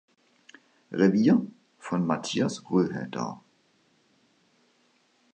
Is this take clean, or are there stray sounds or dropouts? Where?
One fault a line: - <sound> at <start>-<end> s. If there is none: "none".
none